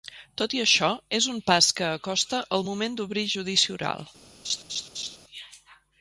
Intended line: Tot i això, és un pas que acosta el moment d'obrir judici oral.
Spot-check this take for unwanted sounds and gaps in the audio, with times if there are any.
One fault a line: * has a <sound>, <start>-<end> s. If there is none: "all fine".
* has a laugh, 4.4-5.2 s